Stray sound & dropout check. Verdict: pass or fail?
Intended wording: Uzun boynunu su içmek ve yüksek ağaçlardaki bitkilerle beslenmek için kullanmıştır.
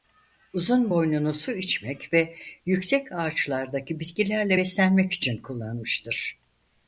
pass